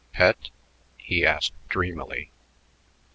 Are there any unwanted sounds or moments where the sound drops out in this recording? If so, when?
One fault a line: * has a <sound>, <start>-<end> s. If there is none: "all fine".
all fine